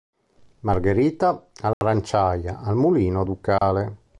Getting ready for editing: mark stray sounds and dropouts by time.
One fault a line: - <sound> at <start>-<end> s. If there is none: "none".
- dropout at 1.7-1.8 s
- dropout at 3.6-3.6 s